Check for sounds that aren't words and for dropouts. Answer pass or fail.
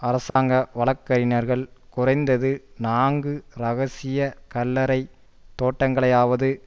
fail